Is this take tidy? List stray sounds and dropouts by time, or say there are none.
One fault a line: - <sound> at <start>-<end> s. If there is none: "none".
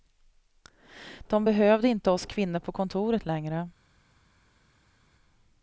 none